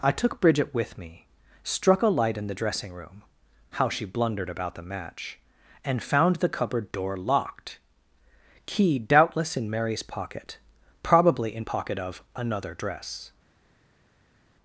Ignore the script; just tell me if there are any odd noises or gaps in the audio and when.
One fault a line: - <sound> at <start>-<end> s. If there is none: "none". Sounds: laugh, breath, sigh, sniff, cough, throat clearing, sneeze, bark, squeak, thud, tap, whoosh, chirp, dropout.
none